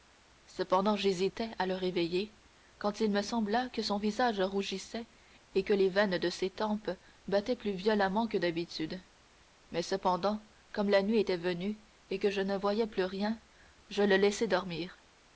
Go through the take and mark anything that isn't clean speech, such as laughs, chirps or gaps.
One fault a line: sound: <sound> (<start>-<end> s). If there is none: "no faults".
no faults